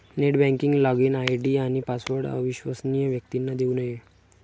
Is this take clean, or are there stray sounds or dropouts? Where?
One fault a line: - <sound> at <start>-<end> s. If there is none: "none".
none